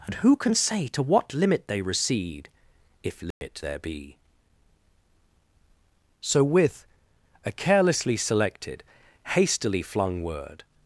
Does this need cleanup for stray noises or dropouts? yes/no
yes